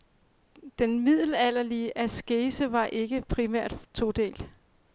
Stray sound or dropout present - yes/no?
no